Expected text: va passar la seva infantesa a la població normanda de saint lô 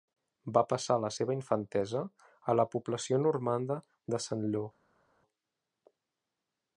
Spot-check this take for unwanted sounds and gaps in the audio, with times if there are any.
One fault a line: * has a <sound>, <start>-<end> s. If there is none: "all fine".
all fine